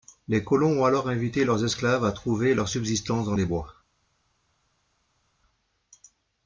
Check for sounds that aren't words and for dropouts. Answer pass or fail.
pass